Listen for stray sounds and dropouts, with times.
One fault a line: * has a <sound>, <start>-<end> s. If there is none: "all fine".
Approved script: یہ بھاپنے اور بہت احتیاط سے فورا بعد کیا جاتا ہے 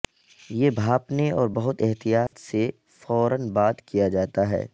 * has a dropout, 2.3-2.3 s